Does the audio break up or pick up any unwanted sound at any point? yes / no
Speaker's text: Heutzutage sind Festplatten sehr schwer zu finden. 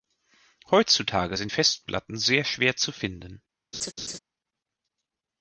yes